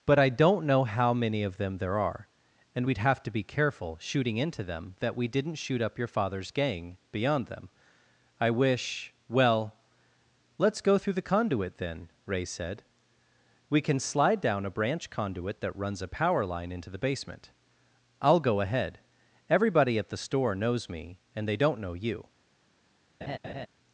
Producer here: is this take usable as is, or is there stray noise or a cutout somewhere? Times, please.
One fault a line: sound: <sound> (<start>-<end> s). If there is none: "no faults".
sound: laugh (23.2-23.7 s)